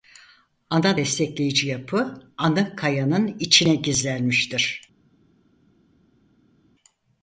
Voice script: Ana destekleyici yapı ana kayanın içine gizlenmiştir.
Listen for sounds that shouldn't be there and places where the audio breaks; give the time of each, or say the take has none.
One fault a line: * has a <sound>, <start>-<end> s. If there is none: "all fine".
all fine